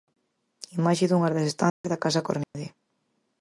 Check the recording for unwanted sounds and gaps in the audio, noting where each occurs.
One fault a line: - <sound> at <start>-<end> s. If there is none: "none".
- dropout at 1.7-1.8 s
- dropout at 2.4-2.5 s